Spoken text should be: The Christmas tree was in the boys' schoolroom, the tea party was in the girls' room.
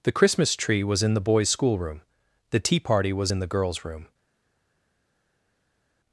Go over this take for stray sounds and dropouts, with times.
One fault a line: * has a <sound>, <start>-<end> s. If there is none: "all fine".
all fine